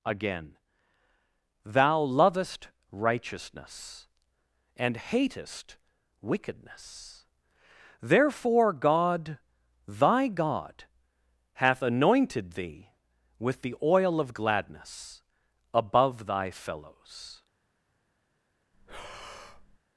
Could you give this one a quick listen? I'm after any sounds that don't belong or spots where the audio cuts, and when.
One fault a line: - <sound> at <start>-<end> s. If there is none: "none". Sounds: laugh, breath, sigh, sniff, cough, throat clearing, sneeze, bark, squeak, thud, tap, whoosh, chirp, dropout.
- breath at 18.7-19.8 s